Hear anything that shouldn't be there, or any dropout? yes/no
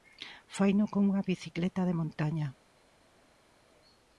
no